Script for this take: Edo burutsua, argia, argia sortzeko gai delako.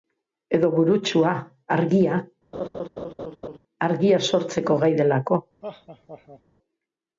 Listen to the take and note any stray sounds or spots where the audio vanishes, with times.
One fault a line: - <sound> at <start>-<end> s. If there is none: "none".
- laugh at 2.5-3.6 s
- laugh at 5.6-6.4 s